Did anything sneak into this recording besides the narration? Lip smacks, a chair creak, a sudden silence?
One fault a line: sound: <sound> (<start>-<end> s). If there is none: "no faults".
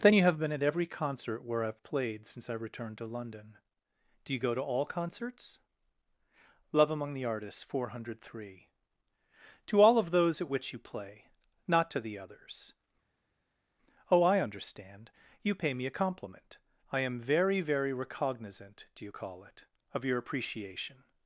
no faults